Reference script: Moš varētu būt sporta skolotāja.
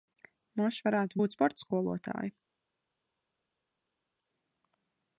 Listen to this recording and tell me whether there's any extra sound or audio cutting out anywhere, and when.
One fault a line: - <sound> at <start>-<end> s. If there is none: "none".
none